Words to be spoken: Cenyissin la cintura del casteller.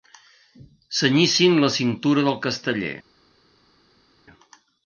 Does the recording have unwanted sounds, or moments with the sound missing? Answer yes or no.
no